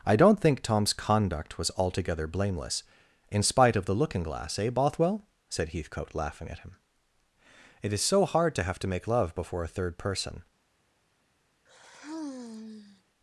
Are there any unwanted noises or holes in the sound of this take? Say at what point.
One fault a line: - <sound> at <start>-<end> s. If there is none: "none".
- sigh at 11.7-13.0 s